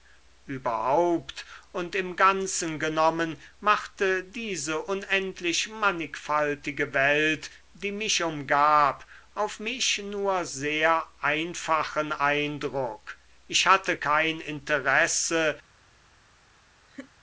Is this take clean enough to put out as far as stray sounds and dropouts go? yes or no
no